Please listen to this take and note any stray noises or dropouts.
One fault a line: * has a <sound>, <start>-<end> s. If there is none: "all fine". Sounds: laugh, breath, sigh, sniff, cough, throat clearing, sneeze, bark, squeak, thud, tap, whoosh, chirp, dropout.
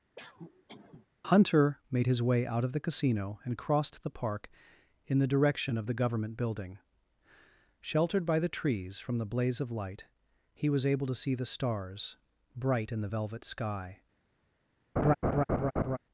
* has a cough, 0.2-1.1 s
* has a laugh, 15.0-16.0 s